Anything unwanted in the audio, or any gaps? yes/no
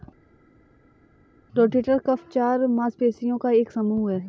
no